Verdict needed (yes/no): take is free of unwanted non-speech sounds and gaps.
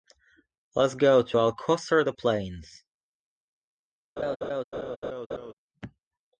no